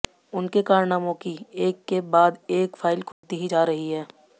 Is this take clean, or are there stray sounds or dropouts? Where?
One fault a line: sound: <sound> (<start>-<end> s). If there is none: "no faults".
sound: dropout (3.1-3.2 s)